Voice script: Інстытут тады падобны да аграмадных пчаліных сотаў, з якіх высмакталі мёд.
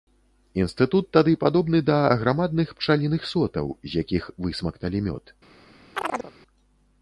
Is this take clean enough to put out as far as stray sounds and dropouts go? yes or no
no